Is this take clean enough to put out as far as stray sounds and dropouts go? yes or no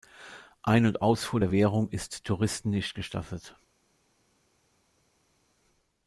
yes